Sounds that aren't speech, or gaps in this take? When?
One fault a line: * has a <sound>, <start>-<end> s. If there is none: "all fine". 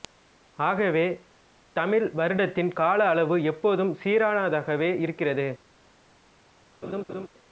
* has a laugh, 6.8-7.3 s